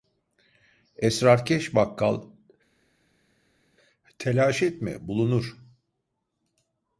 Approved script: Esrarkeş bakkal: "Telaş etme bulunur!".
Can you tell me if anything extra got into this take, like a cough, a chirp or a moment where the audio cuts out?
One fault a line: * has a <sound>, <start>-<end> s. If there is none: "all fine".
all fine